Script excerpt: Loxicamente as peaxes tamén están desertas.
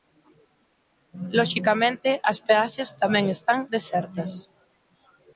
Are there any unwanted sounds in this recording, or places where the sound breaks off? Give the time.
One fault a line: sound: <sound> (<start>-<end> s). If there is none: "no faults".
no faults